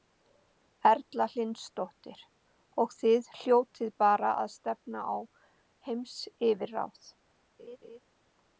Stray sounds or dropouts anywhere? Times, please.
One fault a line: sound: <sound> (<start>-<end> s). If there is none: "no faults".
sound: laugh (7.6-8.0 s)